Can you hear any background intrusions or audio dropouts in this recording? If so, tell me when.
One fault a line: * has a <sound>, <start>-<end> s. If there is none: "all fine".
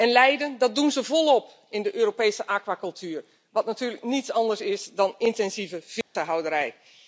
* has a dropout, 6.0-6.2 s